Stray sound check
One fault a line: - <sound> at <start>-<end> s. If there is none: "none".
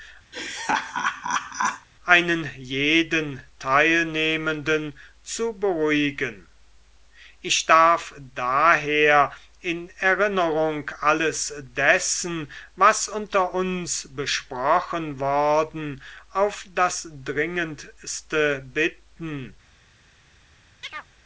- laugh at 0.3-1.9 s
- chirp at 20.8-21.1 s